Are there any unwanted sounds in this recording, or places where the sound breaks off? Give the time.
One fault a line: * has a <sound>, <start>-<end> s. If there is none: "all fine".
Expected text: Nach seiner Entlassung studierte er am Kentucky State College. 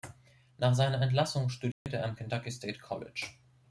* has a dropout, 1.7-1.9 s